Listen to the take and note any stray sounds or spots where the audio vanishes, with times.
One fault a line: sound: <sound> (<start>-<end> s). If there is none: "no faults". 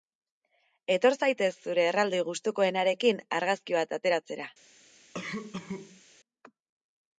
sound: cough (5.1-6.0 s)